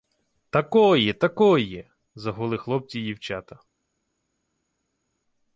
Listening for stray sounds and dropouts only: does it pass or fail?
pass